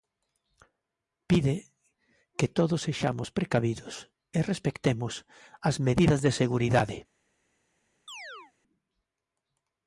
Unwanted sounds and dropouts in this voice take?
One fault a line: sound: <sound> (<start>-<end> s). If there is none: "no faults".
sound: chirp (8.1-8.5 s)